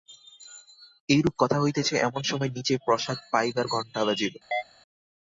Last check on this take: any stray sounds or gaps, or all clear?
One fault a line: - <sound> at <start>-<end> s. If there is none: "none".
- chirp at 4.5-4.6 s